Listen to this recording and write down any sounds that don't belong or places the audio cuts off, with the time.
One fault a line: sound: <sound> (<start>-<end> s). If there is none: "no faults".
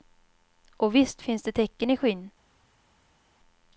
no faults